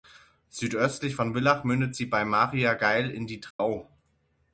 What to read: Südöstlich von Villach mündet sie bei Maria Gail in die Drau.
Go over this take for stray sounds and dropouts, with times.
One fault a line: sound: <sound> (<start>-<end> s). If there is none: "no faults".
sound: dropout (3.5-3.6 s)